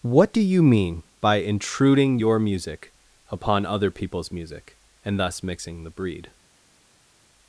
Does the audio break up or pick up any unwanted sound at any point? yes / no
no